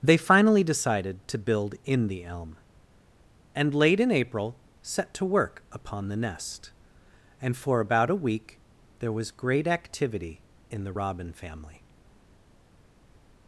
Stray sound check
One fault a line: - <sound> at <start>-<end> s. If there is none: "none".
none